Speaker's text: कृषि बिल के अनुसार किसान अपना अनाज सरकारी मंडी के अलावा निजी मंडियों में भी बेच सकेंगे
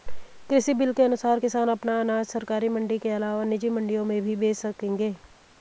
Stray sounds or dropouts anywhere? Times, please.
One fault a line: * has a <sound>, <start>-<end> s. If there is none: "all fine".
all fine